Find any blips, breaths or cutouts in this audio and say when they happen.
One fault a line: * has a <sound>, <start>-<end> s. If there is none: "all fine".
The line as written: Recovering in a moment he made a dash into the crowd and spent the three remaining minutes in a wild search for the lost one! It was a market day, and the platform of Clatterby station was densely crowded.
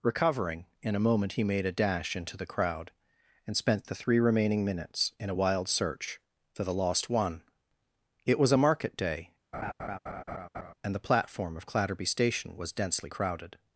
* has a laugh, 9.5-10.7 s